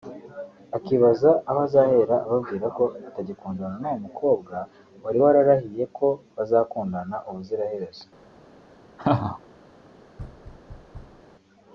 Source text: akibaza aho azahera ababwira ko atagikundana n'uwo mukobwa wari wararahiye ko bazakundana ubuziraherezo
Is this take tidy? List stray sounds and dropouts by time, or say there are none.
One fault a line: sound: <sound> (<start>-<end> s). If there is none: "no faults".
sound: laugh (9.0-9.4 s)
sound: thud (10.2-11.2 s)